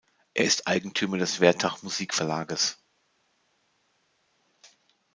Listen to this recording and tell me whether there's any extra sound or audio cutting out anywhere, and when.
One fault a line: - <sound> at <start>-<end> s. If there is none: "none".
none